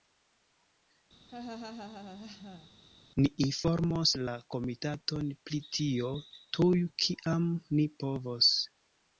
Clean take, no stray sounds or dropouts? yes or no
no